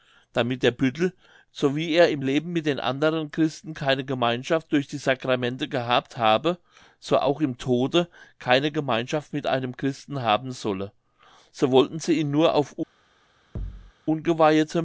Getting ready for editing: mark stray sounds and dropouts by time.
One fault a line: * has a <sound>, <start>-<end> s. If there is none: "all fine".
* has a thud, 13.6-13.9 s